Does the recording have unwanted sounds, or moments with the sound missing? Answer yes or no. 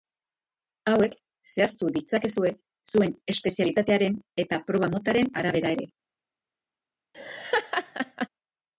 yes